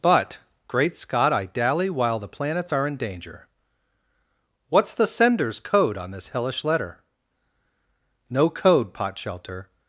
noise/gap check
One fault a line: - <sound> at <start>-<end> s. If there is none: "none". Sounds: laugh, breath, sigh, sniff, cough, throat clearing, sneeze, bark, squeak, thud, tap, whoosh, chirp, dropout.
none